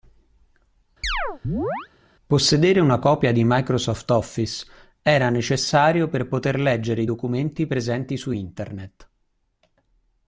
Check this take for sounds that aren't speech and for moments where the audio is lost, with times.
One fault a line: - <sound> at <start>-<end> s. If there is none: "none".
- chirp at 1.0-1.9 s